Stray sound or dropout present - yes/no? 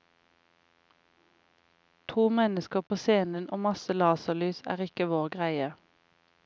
yes